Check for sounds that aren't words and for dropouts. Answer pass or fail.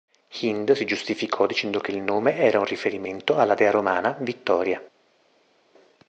pass